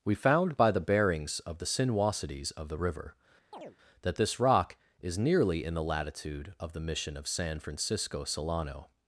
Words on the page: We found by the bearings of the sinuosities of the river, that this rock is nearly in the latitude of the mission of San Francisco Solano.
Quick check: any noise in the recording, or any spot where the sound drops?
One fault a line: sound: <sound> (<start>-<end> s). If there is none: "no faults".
sound: chirp (3.5-3.8 s)